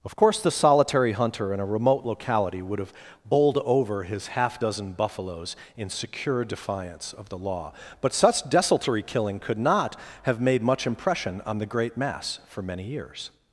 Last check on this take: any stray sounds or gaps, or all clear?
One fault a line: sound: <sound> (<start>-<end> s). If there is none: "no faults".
no faults